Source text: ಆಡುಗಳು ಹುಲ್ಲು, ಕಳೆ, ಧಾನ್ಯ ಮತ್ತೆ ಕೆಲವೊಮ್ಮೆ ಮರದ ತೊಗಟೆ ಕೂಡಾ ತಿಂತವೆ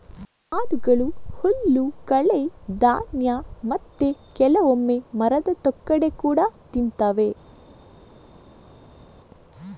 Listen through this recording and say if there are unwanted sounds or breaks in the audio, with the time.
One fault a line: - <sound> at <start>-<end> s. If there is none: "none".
none